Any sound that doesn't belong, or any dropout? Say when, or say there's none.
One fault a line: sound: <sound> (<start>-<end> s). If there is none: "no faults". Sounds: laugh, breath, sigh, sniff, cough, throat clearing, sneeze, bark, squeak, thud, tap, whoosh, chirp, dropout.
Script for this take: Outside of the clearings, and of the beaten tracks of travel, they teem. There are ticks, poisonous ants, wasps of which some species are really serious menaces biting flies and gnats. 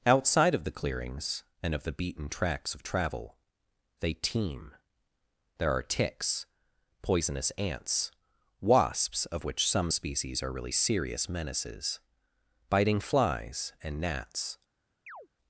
sound: chirp (15.1-15.3 s)